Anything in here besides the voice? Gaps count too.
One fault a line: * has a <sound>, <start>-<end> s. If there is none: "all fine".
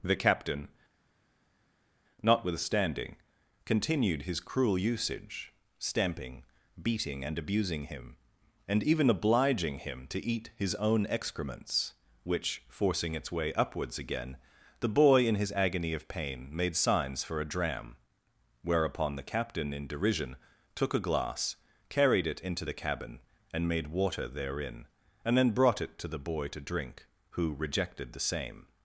all fine